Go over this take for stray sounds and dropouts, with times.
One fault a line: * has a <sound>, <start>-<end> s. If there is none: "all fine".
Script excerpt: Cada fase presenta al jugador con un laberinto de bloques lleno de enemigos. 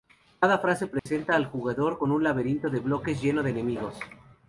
* has a dropout, 1.0-1.1 s